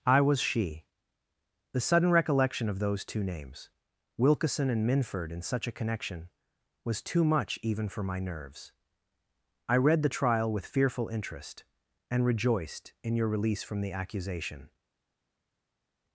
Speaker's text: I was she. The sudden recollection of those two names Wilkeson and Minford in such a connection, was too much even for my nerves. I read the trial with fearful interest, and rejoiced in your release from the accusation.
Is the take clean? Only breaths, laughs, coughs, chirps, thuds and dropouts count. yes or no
yes